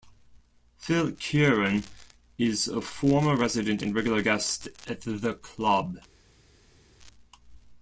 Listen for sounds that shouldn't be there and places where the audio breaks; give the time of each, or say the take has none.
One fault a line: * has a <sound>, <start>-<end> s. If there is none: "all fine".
all fine